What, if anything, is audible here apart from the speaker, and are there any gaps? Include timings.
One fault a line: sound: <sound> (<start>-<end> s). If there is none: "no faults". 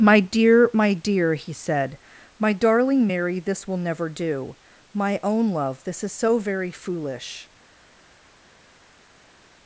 no faults